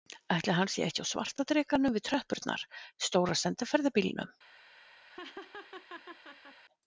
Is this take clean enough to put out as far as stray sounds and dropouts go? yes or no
no